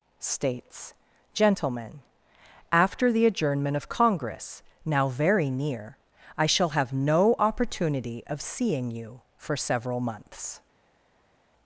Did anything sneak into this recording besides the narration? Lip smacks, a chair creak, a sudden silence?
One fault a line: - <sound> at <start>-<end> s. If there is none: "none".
none